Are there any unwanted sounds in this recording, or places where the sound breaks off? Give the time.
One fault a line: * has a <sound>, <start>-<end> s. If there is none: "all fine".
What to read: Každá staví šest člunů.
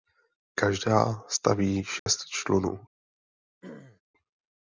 * has a dropout, 2.0-2.1 s
* has a throat clearing, 3.6-4.0 s